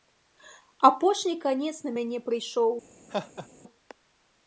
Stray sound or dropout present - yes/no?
yes